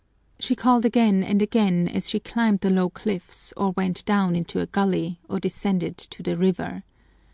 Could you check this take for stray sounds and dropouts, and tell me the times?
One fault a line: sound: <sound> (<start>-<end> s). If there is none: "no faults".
no faults